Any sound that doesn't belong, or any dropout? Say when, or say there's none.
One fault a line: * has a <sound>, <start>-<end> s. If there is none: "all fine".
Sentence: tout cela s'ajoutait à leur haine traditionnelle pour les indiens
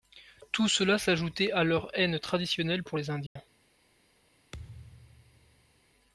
* has a dropout, 3.3-3.4 s
* has a thud, 4.5-5.8 s